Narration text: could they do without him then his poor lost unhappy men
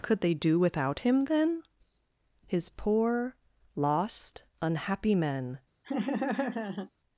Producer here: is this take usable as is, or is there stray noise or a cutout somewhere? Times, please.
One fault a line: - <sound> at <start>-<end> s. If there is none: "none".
- laugh at 5.8-6.9 s